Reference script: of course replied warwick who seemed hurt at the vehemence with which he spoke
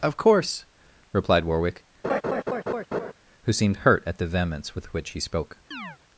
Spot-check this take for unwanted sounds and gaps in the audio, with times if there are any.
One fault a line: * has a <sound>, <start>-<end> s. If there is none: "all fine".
* has a laugh, 2.0-3.1 s
* has a chirp, 5.7-6.0 s